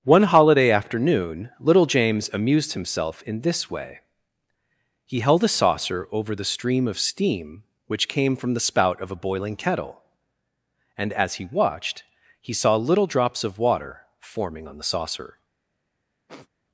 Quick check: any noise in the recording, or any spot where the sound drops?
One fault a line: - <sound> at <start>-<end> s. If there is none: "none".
- sniff at 16.3-16.5 s